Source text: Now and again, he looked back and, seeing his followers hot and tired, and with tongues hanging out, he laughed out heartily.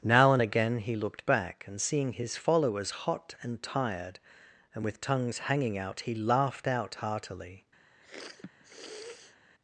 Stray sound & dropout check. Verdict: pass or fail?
fail